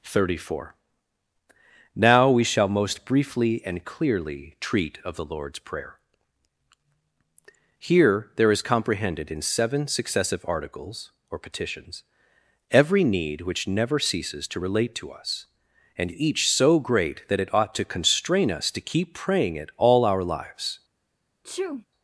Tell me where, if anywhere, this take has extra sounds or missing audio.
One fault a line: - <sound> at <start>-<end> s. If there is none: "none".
- sneeze at 21.4-21.9 s